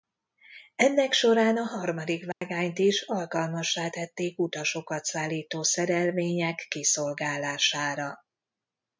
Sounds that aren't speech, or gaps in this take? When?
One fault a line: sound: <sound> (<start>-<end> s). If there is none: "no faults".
sound: dropout (2.3-2.4 s)